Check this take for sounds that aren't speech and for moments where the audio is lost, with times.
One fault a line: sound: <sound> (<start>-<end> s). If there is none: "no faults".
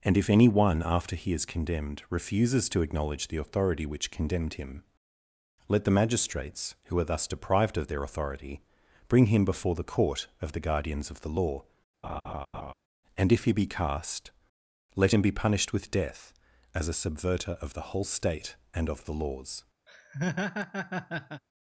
sound: laugh (12.0-12.7 s)
sound: laugh (19.9-21.4 s)